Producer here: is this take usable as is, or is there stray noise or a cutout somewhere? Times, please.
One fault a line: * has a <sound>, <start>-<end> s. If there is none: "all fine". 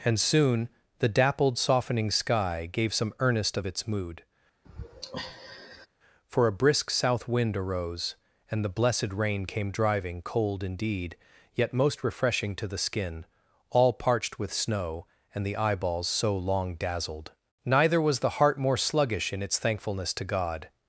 * has a sigh, 4.6-5.9 s